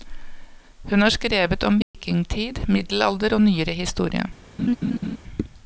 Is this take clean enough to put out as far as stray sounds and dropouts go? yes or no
no